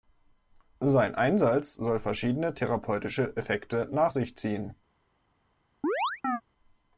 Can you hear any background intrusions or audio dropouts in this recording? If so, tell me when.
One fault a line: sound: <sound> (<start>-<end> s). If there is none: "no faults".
sound: chirp (5.8-6.4 s)